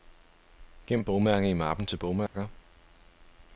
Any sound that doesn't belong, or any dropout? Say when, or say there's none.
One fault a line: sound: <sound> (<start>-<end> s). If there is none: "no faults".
sound: dropout (2.3-2.3 s)